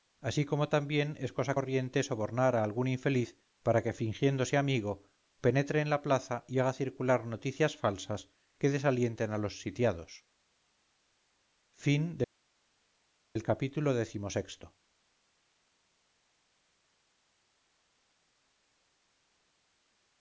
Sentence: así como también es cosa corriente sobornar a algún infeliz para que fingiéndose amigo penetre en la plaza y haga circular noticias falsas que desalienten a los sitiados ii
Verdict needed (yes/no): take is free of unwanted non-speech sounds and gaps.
yes